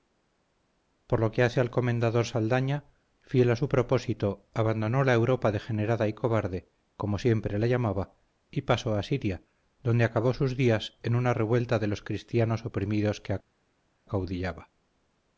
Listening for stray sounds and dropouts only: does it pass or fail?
pass